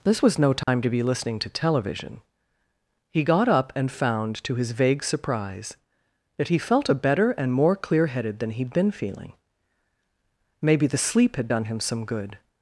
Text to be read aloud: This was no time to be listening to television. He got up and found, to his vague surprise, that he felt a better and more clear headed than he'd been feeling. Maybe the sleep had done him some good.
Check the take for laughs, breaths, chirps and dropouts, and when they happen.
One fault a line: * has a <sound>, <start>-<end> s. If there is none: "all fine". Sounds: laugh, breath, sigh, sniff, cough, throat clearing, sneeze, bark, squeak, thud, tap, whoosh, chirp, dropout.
* has a dropout, 0.6-0.7 s